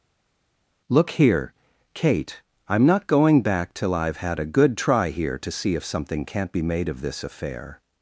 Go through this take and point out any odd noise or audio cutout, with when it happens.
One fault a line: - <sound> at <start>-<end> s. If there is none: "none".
none